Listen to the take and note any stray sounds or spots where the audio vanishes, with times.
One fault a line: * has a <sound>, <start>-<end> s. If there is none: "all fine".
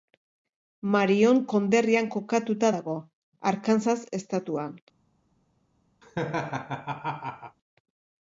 * has a laugh, 6.0-7.6 s